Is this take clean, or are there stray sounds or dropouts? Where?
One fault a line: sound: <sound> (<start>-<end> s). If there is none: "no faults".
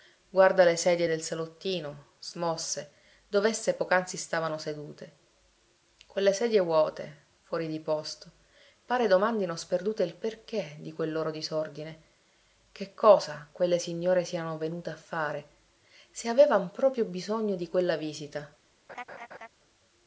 sound: laugh (18.9-19.5 s)